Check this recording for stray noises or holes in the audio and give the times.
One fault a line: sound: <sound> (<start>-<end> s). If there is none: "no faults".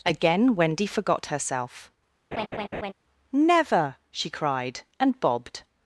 sound: laugh (2.3-2.9 s)